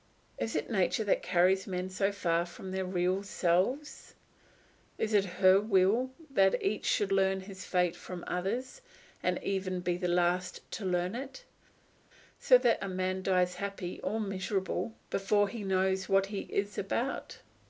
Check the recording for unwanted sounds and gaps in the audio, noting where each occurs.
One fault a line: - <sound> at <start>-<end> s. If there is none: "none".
none